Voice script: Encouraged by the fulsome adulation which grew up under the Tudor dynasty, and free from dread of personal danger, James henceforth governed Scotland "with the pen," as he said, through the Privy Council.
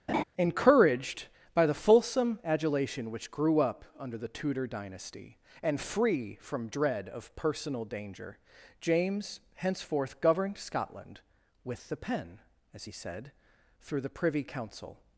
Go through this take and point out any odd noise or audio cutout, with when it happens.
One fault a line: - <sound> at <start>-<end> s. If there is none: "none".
- laugh at 0.1-0.2 s